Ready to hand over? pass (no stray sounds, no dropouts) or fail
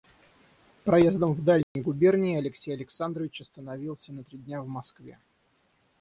fail